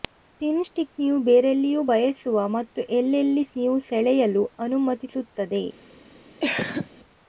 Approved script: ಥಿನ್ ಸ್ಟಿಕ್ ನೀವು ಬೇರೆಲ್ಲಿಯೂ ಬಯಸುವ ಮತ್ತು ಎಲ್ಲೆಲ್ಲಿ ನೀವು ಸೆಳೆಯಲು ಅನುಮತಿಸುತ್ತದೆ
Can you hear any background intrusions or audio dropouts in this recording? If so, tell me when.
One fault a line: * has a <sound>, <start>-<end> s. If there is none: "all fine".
* has a cough, 6.4-6.9 s